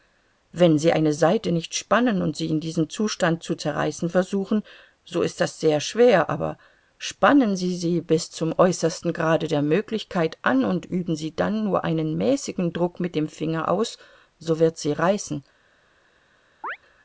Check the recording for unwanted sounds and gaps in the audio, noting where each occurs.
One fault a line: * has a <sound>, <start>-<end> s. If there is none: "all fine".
* has a chirp, 16.6-16.8 s